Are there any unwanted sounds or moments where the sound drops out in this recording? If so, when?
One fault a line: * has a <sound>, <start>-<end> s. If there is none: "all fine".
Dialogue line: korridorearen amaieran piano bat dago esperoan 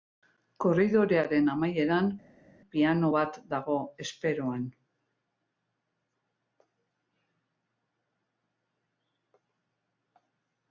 all fine